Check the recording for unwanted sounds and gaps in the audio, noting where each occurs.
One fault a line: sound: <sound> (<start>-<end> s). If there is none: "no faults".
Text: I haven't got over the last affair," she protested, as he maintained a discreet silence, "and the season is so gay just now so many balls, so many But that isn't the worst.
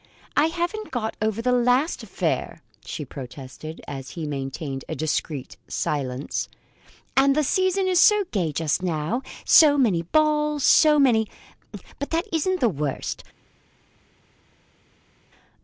no faults